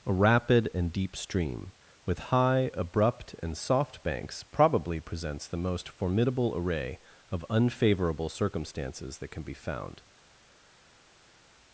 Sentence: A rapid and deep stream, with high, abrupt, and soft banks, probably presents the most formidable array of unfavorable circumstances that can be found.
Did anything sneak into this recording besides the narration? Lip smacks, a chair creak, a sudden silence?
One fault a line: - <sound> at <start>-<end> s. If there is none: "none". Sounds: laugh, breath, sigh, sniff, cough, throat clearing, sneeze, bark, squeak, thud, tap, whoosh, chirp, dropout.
none